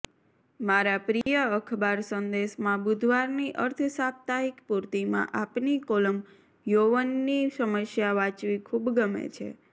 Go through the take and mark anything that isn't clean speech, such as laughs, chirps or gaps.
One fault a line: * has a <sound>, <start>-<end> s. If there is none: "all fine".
* has a dropout, 1.2-1.3 s